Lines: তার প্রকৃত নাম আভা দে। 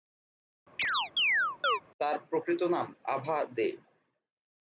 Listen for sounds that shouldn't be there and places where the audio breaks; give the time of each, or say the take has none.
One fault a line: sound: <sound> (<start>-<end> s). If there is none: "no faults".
sound: chirp (0.8-1.8 s)